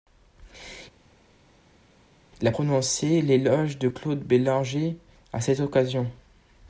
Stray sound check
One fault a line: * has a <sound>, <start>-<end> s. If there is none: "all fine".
all fine